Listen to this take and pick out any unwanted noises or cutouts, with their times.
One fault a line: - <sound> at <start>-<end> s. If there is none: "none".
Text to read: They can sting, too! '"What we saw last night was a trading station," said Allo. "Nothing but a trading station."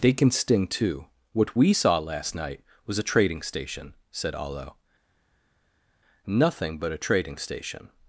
none